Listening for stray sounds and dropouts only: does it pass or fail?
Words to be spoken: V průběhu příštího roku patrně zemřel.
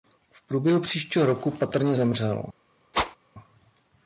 fail